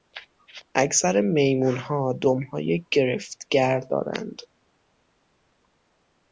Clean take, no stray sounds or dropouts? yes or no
yes